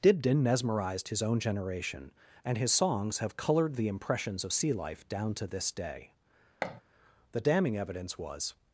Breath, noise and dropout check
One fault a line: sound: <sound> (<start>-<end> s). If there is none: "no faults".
sound: thud (6.6-6.8 s)